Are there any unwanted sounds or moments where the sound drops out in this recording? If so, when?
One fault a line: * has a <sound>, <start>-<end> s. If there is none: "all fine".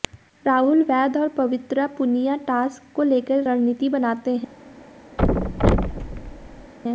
* has a thud, 5.2-6.7 s